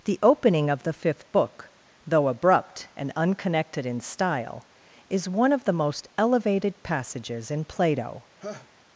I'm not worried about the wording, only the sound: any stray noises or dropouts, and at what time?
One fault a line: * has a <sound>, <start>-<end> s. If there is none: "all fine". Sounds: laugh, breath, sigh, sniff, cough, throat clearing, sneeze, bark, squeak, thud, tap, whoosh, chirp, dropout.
* has a laugh, 8.4-8.7 s